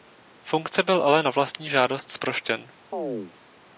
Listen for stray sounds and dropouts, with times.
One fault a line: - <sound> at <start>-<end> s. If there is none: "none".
- chirp at 2.9-3.3 s